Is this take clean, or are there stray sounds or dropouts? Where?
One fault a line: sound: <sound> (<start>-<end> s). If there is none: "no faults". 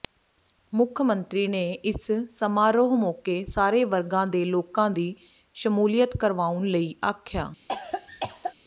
sound: cough (7.7-8.5 s)